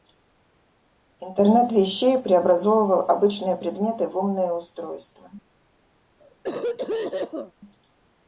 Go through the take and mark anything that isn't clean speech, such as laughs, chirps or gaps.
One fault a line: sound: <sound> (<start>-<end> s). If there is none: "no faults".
sound: cough (6.2-7.5 s)